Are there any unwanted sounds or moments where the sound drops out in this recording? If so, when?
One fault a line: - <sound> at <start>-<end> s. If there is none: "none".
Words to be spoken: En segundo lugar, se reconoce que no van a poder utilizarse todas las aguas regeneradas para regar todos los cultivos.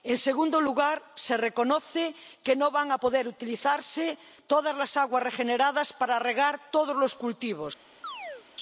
- chirp at 8.0-8.4 s